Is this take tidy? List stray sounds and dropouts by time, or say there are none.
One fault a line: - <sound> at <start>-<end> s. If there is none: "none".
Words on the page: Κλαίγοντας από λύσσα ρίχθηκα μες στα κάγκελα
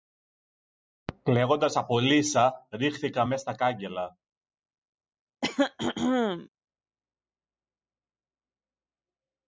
- throat clearing at 5.4-6.5 s